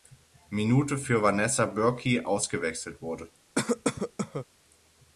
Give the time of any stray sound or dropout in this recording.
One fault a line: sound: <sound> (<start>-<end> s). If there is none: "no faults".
sound: cough (3.6-4.5 s)